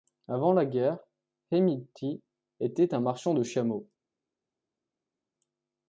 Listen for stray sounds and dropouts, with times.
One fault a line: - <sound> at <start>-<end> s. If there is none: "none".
none